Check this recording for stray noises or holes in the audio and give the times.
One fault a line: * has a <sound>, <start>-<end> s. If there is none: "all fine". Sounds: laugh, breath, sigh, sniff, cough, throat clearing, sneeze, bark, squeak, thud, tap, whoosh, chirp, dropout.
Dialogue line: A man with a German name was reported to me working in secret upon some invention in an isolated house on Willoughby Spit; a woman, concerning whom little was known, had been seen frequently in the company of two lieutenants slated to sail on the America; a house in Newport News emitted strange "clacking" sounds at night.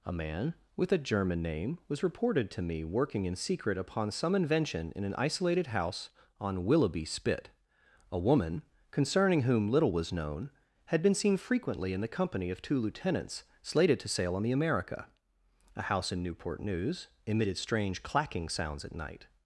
all fine